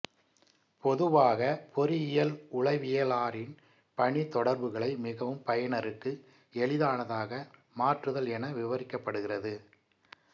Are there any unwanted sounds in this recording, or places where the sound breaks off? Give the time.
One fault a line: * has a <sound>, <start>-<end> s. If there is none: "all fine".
all fine